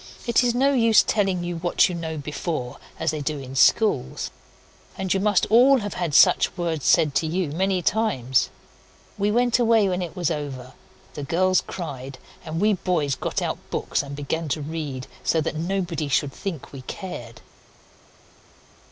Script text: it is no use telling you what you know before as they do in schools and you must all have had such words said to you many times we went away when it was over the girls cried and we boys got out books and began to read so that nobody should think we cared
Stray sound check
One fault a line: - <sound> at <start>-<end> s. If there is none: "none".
none